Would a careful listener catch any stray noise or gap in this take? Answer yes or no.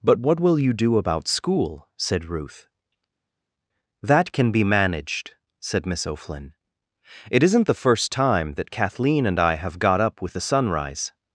no